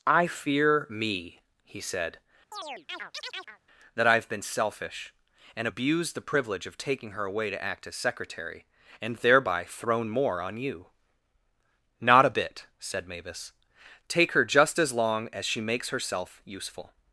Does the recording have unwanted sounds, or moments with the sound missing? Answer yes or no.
yes